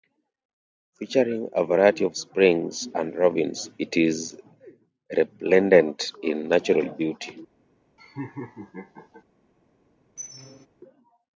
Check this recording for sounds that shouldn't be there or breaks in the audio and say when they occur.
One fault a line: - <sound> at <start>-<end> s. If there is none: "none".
- laugh at 8.0-9.2 s
- squeak at 10.2-10.7 s